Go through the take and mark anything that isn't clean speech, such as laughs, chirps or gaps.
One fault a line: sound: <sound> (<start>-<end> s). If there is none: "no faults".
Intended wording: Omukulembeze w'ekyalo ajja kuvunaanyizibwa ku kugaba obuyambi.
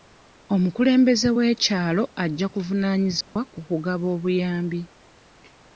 sound: dropout (3.2-3.4 s)